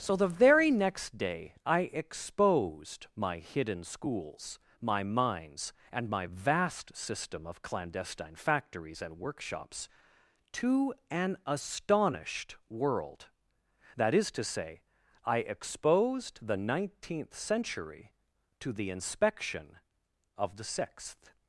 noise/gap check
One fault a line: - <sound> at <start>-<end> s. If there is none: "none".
none